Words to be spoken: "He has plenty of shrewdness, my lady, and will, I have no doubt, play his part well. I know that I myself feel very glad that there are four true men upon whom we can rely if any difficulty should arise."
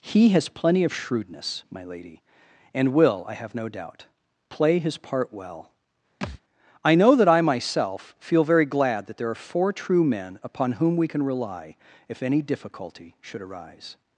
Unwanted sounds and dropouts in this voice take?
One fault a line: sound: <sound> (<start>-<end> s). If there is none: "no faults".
sound: thud (6.2-6.4 s)